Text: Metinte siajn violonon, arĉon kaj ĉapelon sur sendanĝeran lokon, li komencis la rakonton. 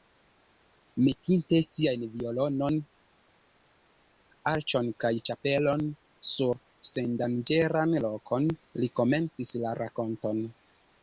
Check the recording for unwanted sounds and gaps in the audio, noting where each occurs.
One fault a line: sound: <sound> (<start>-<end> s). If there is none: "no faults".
no faults